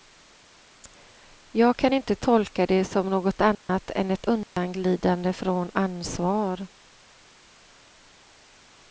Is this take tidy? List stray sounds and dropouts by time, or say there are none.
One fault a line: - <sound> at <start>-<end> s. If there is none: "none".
- dropout at 3.5-3.7 s
- dropout at 4.4-4.6 s